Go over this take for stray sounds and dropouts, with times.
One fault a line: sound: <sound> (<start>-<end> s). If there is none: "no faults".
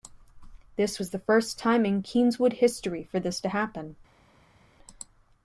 no faults